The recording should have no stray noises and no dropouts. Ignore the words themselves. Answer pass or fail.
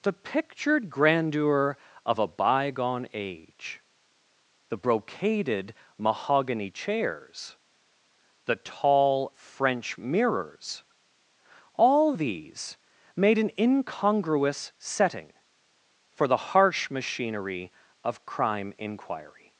pass